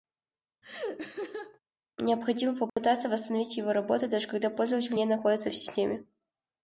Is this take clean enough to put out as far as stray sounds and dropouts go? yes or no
no